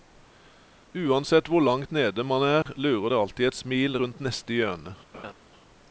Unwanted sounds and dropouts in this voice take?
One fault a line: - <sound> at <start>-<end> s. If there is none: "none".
- dropout at 2.6-2.7 s
- laugh at 5.1-5.3 s